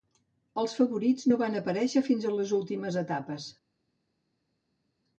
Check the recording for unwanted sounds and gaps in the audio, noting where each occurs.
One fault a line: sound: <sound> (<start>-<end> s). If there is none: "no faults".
no faults